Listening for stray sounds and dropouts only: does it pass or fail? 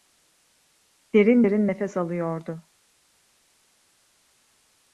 pass